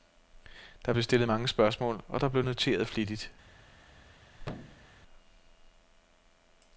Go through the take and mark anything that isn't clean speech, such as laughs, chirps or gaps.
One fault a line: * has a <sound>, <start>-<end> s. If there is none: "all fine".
* has a thud, 4.4-4.9 s